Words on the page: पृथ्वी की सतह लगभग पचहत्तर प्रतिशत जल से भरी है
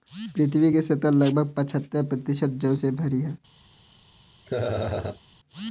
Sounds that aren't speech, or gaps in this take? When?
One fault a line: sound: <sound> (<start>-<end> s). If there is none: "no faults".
sound: laugh (4.5-5.2 s)